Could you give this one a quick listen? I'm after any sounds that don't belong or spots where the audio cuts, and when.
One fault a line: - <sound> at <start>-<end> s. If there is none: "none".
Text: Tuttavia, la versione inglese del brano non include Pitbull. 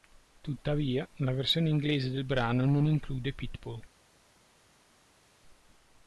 none